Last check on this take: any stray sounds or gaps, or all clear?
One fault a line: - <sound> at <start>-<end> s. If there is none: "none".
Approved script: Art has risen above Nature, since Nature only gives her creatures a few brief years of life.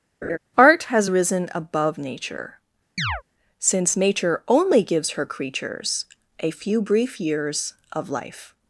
- laugh at 0.2-0.4 s
- chirp at 3.0-3.2 s